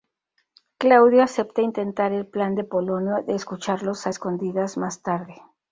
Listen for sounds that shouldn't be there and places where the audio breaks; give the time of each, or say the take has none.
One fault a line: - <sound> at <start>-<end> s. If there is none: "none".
none